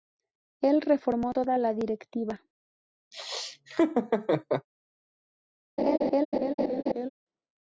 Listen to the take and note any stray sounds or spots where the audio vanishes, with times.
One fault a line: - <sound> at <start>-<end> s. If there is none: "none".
- laugh at 3.1-4.7 s
- laugh at 5.8-7.1 s